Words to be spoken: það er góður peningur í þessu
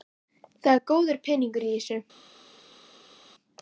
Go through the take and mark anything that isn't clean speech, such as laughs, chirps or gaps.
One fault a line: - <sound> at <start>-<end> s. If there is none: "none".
none